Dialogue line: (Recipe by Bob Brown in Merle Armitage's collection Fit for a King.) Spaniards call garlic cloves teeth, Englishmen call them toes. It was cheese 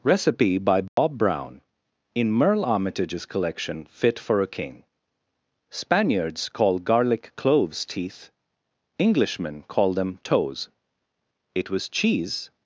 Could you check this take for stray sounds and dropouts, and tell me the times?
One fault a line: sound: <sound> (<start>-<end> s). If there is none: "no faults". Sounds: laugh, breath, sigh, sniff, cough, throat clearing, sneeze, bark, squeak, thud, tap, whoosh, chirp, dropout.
sound: dropout (0.9-1.0 s)